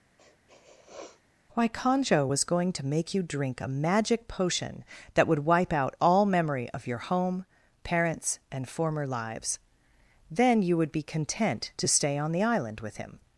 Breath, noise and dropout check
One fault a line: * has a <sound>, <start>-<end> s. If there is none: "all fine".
* has a sniff, 0.2-1.2 s